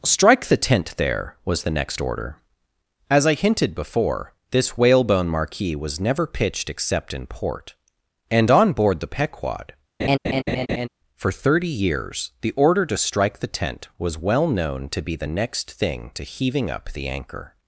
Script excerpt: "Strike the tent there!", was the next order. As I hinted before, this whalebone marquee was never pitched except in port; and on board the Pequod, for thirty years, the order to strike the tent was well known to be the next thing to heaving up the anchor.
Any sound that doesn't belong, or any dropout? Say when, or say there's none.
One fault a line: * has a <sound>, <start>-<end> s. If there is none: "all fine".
* has a laugh, 10.0-10.9 s